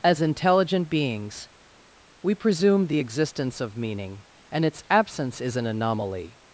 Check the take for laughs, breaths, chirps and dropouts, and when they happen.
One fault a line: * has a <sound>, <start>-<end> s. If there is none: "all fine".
all fine